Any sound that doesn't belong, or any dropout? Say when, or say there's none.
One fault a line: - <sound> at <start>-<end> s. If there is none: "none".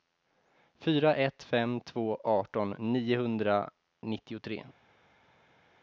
none